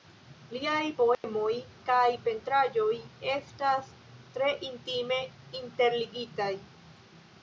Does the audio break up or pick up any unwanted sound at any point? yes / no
yes